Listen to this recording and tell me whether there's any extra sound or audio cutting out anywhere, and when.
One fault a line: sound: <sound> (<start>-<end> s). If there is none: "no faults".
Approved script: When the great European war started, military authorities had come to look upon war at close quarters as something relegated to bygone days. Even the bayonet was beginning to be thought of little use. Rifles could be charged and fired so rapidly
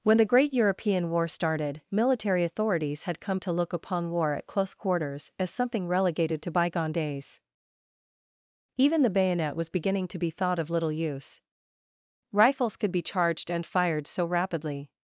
no faults